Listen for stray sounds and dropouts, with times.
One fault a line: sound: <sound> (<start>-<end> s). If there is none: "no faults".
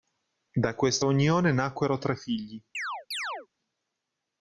sound: chirp (2.7-3.5 s)